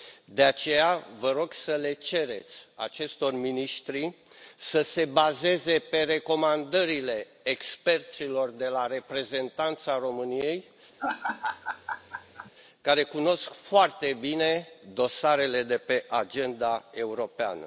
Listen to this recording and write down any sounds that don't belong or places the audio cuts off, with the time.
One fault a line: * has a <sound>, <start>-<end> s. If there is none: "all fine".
* has a laugh, 11.0-12.5 s